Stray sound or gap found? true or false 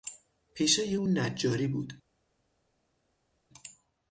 false